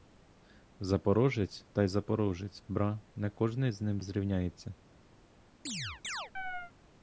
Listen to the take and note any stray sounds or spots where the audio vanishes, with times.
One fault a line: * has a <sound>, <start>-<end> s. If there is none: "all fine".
* has a chirp, 5.7-6.7 s